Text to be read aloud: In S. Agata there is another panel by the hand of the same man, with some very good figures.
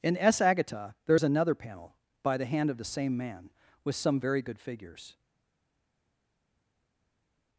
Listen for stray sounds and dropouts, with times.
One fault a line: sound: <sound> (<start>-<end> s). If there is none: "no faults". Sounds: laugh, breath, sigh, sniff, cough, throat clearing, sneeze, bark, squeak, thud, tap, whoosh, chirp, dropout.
no faults